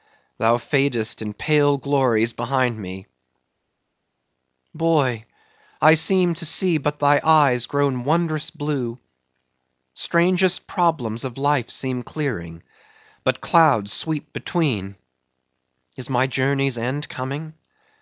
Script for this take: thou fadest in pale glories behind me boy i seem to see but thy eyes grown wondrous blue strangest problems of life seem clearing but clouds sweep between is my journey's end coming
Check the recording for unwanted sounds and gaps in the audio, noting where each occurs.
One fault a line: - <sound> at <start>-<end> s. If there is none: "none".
none